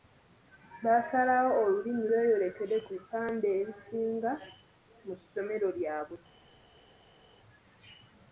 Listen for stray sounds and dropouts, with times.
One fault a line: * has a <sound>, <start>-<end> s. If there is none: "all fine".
all fine